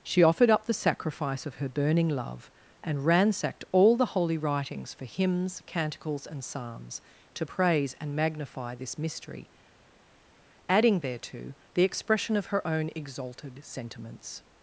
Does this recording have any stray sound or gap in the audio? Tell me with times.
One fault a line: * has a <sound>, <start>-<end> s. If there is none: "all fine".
all fine